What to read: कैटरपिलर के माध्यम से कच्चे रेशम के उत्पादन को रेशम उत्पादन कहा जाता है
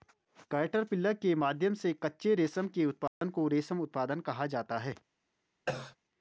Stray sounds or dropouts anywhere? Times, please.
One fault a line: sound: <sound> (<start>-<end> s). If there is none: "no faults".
sound: dropout (3.1-3.2 s)
sound: cough (5.7-6.0 s)